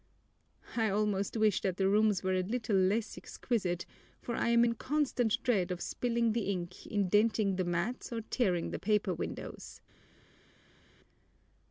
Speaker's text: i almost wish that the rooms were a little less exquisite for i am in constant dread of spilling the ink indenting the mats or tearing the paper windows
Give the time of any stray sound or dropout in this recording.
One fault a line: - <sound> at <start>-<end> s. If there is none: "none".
none